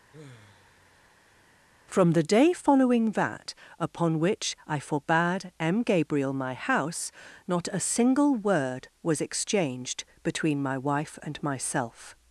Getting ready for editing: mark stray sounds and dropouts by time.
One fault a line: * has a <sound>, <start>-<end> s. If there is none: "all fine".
* has a sigh, 0.1-1.5 s